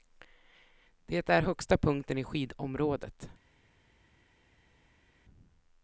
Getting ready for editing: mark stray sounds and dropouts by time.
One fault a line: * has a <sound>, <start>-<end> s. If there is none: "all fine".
all fine